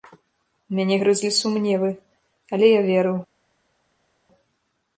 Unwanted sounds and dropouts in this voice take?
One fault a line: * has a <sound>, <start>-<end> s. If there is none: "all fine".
all fine